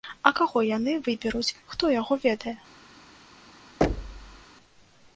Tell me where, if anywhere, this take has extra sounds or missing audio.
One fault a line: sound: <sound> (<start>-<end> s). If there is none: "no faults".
sound: thud (3.8-4.5 s)